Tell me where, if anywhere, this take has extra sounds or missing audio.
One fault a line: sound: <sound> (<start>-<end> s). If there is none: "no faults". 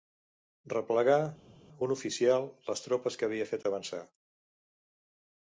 no faults